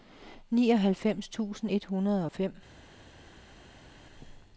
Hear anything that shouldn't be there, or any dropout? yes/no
no